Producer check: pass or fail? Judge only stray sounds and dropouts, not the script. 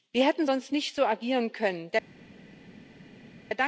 pass